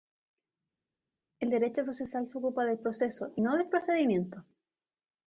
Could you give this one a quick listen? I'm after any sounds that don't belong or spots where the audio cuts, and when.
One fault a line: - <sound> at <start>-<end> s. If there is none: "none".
none